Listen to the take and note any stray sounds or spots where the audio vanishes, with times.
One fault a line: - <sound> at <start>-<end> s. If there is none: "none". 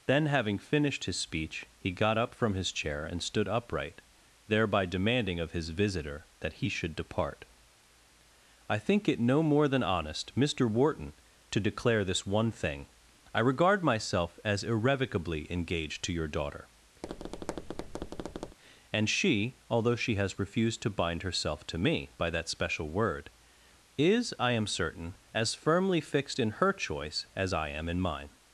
- tap at 17.0-18.6 s